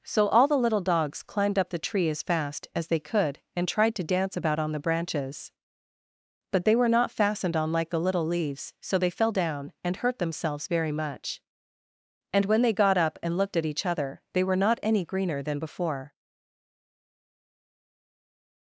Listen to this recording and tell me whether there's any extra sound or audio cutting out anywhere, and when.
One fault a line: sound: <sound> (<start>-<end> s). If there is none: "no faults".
no faults